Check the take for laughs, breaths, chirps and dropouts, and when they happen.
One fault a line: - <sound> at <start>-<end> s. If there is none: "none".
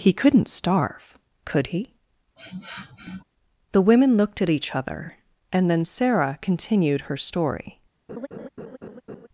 - sniff at 2.4-3.2 s
- laugh at 8.1-9.3 s